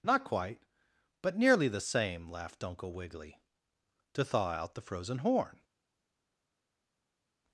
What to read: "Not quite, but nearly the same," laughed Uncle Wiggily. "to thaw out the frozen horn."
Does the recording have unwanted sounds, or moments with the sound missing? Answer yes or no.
no